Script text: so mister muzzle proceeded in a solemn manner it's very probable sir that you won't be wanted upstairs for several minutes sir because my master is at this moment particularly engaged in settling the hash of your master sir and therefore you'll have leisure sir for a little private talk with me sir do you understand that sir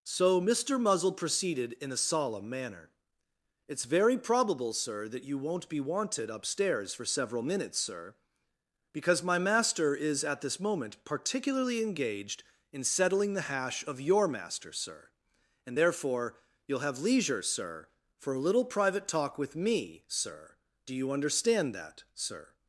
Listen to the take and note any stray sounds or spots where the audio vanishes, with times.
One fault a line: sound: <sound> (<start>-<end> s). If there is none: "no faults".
no faults